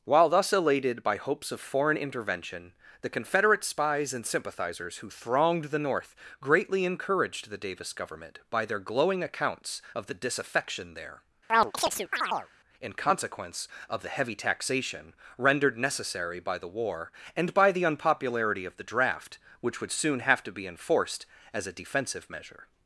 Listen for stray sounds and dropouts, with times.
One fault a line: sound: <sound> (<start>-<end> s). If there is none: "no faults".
sound: chirp (11.5-12.5 s)